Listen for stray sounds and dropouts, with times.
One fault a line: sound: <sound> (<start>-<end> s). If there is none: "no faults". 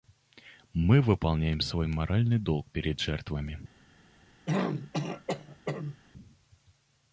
sound: throat clearing (4.5-6.0 s)